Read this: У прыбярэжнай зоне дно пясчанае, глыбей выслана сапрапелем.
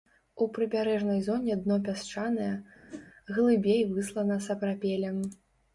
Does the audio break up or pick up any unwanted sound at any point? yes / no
yes